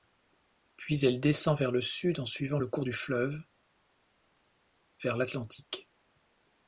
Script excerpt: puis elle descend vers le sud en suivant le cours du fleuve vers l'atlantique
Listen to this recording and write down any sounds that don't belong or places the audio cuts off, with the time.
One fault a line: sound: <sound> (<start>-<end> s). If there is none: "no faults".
no faults